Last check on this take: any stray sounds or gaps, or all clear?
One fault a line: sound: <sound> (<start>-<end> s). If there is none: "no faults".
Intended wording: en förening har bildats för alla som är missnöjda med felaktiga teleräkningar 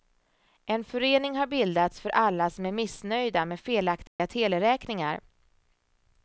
sound: dropout (4.1-4.2 s)